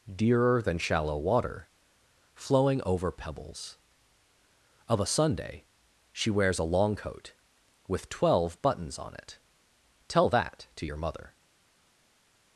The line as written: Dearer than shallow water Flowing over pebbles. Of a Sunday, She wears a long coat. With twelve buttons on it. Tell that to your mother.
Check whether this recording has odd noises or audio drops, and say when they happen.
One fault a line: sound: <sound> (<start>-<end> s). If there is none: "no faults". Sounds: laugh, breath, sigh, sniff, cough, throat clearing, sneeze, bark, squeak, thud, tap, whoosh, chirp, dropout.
no faults